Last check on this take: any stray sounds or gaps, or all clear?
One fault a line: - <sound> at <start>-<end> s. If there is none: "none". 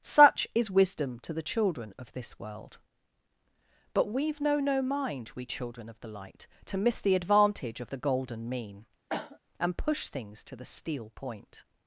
- cough at 9.1-9.4 s